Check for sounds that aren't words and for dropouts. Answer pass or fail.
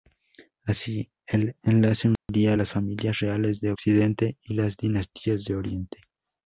fail